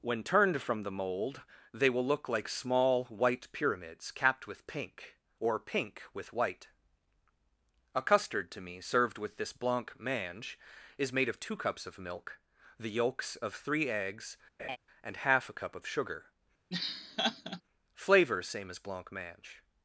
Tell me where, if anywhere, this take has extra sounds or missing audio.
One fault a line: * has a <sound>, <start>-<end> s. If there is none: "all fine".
* has a laugh, 14.6-14.8 s
* has a laugh, 16.7-17.6 s